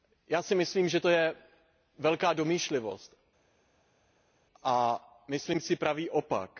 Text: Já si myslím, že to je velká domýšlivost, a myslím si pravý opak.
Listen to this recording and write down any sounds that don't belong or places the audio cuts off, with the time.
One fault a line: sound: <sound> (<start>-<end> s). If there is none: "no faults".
no faults